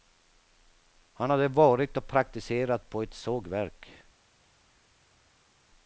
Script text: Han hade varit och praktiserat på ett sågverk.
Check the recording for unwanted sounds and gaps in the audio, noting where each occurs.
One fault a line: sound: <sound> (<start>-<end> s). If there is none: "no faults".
no faults